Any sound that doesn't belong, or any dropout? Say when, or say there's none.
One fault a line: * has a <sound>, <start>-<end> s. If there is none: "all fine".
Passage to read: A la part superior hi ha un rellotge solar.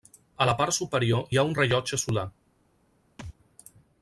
* has a thud, 3.2-3.4 s